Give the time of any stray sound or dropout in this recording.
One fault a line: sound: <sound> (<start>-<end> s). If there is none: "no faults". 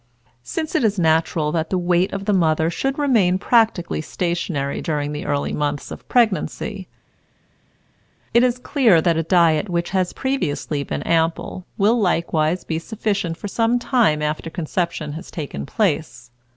no faults